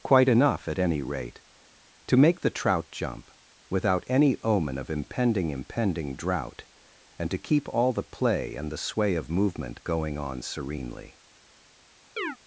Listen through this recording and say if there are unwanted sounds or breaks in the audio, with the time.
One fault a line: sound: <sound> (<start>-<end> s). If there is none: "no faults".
sound: chirp (12.2-12.4 s)